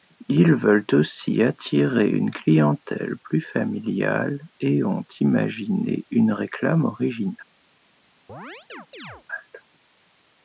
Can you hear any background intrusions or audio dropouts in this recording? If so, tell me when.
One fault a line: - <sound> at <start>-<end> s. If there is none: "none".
- chirp at 8.3-9.2 s